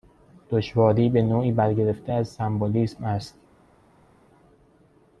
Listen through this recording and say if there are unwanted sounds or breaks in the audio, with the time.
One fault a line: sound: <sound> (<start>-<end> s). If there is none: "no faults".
no faults